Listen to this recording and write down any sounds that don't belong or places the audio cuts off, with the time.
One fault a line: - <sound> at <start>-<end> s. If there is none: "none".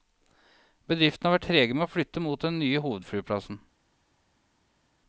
none